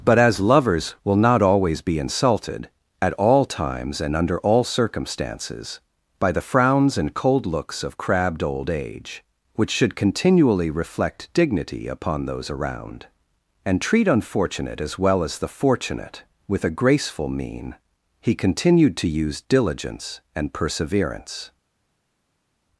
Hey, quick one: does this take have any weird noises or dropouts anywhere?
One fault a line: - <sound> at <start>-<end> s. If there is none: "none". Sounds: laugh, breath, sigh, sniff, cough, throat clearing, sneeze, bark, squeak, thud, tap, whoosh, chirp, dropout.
none